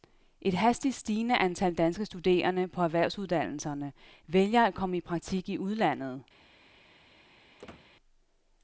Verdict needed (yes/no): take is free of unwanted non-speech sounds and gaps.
no